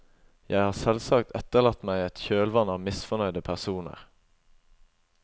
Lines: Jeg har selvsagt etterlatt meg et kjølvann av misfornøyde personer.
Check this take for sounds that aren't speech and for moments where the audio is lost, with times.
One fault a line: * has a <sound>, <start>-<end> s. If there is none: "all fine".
all fine